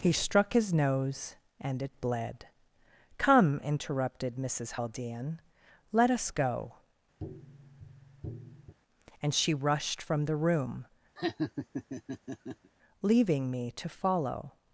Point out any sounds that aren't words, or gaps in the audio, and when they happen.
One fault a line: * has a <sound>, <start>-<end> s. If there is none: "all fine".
* has a tap, 7.2-8.7 s
* has a laugh, 11.2-12.7 s